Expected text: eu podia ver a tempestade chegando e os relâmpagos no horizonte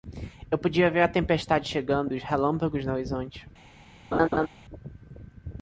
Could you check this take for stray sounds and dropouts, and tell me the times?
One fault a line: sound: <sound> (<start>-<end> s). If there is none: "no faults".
sound: laugh (4.1-4.5 s)